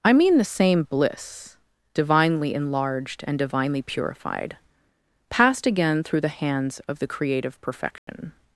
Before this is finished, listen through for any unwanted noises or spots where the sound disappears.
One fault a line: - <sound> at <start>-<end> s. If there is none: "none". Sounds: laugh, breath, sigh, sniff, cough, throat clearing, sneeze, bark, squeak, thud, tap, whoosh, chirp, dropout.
- dropout at 8.0-8.1 s